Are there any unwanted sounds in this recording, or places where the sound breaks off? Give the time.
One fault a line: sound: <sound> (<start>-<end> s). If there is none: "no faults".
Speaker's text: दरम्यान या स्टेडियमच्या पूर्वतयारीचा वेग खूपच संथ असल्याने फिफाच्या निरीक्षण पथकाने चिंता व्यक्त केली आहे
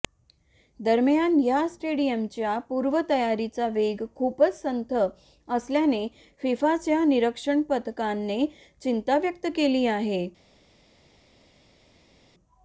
no faults